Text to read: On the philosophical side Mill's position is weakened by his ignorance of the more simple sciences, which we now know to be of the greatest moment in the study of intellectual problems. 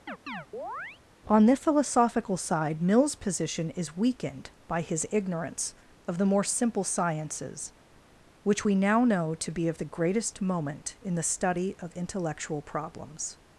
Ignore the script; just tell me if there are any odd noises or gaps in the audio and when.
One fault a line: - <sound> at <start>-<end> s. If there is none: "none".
- chirp at 0.1-1.0 s